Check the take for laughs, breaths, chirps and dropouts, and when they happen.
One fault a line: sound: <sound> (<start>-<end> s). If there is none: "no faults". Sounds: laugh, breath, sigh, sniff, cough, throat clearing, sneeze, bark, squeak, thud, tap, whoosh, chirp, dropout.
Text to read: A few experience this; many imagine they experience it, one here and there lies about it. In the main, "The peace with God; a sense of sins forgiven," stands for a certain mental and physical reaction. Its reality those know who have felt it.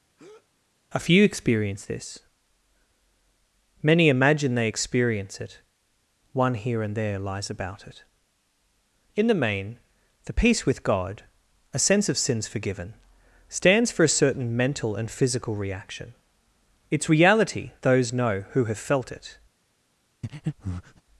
sound: breath (0.2-0.5 s)
sound: breath (20.2-21.0 s)